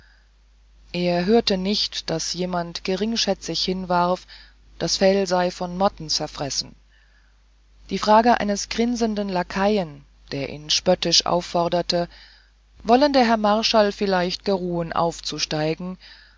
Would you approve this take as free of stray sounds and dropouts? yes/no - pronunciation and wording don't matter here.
yes